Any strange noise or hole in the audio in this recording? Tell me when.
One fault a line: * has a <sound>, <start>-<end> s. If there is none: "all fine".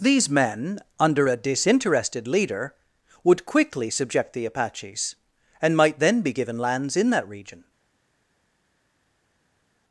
all fine